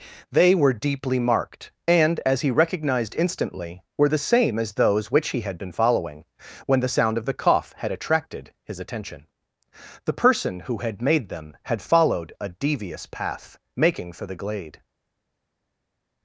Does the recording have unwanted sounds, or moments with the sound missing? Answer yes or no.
no